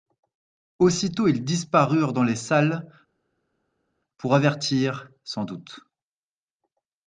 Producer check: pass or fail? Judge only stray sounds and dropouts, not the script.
pass